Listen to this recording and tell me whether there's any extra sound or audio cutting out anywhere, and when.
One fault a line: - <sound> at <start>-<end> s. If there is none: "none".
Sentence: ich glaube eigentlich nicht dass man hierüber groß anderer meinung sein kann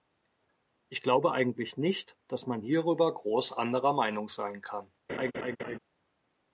- laugh at 5.1-5.8 s